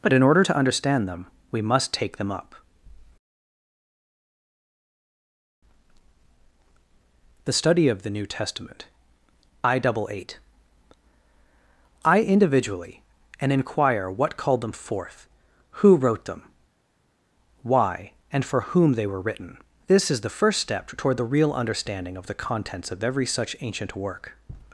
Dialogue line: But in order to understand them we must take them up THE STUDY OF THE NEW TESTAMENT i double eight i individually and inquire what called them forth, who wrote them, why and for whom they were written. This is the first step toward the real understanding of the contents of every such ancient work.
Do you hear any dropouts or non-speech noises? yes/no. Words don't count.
no